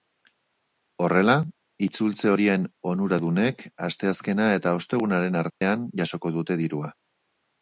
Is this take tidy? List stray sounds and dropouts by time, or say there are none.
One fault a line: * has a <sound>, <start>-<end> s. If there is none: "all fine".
* has a dropout, 5.5-5.6 s